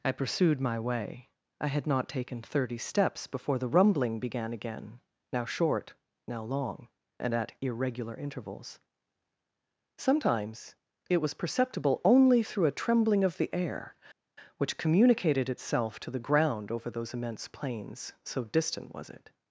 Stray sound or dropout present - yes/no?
no